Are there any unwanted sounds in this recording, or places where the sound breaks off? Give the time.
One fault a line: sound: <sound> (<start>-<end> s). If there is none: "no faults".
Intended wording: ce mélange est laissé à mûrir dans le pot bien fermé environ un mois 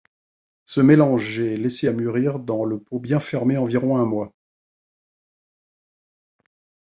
no faults